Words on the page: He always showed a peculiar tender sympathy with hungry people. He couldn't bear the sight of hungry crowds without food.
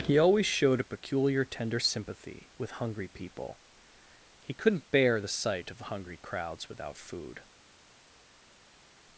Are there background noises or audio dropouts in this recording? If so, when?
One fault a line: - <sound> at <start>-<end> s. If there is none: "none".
none